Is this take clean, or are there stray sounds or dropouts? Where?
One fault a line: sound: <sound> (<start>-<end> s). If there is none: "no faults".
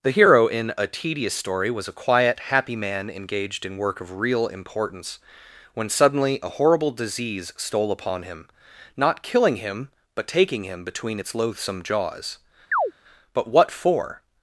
sound: chirp (12.7-12.9 s)